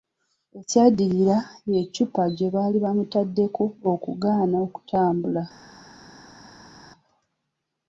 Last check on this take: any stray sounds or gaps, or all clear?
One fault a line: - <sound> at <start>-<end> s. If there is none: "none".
none